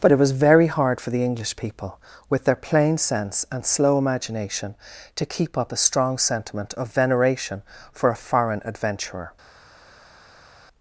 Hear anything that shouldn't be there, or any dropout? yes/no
no